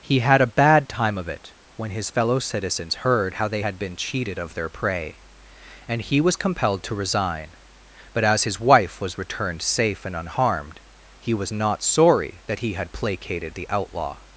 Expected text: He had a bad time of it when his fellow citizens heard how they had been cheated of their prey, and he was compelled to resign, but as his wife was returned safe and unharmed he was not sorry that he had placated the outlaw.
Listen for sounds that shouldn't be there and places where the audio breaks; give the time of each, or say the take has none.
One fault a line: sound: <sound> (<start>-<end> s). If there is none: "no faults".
no faults